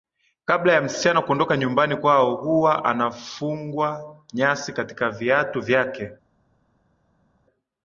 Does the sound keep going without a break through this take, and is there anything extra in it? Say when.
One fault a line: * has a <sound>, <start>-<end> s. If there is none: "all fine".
all fine